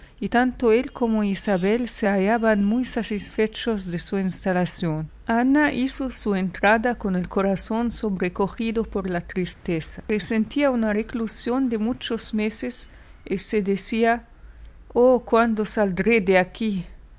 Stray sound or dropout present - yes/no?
yes